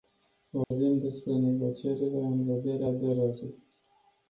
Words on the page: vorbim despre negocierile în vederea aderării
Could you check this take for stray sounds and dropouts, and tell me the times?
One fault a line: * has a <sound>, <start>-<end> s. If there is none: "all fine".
* has a dropout, 0.6-0.7 s